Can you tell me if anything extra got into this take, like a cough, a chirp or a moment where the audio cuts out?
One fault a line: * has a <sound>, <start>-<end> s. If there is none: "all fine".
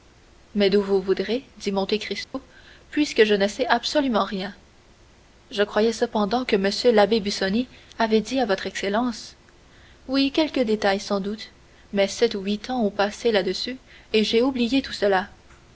* has a dropout, 2.2-2.3 s